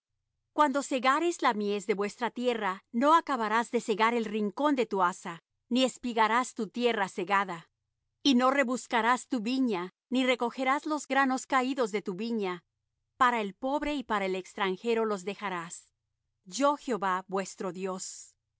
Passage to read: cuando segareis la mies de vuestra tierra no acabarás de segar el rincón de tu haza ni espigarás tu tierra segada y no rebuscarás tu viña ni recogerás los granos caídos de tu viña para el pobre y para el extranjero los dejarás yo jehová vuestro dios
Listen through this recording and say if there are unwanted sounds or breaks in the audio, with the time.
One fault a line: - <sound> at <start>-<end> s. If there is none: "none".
none